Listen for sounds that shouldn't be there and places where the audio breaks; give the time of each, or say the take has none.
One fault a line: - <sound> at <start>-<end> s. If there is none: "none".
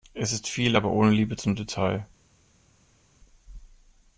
none